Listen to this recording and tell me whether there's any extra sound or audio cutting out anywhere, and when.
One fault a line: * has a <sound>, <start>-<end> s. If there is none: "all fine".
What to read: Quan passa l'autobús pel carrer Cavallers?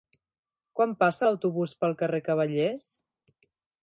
all fine